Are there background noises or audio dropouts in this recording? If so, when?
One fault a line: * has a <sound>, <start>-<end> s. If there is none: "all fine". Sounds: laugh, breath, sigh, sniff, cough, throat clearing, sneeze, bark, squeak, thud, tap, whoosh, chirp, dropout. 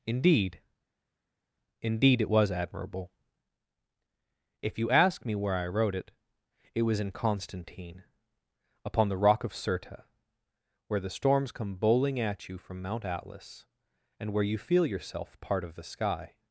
all fine